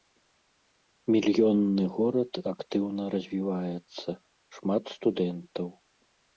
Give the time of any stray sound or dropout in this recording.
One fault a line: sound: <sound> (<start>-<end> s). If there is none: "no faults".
no faults